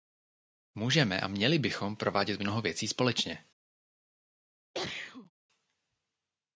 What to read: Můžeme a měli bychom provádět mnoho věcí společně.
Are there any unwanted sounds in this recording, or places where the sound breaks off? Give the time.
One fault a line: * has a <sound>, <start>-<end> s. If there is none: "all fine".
* has a sneeze, 4.7-5.3 s